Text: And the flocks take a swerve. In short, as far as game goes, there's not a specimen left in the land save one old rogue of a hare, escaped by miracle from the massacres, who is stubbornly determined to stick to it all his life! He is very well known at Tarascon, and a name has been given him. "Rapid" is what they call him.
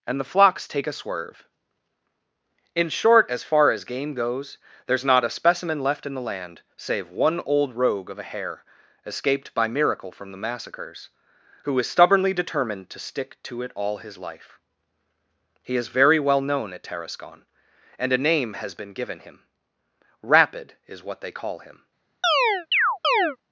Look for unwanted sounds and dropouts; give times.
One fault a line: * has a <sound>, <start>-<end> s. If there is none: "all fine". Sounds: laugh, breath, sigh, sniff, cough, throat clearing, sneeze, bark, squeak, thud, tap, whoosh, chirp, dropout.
* has a chirp, 22.2-23.4 s